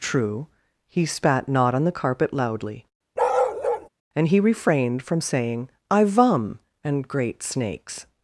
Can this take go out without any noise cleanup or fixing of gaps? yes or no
no